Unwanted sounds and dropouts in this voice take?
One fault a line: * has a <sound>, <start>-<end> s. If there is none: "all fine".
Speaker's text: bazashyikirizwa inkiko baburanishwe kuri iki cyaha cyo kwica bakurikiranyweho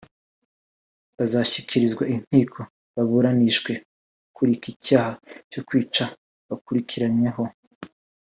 all fine